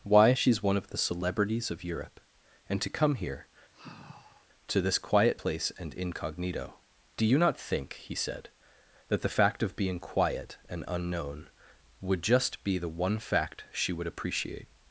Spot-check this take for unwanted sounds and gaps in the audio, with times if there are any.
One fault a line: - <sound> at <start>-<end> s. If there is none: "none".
- sigh at 3.7-4.5 s